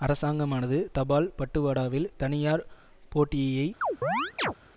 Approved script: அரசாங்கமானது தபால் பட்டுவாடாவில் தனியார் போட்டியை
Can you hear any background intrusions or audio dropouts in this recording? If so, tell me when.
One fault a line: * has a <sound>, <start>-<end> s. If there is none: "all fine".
* has a chirp, 3.8-4.5 s